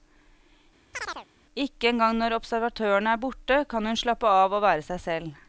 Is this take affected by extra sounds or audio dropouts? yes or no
yes